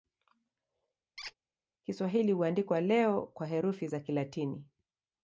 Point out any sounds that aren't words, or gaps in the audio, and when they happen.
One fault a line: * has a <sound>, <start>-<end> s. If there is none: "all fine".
* has a squeak, 1.2-1.3 s